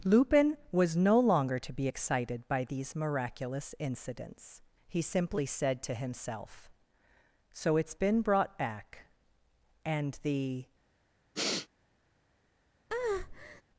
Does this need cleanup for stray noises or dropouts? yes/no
yes